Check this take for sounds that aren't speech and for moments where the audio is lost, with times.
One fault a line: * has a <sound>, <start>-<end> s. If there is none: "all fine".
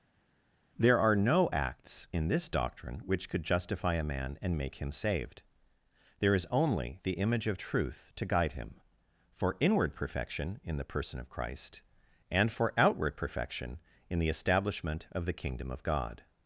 all fine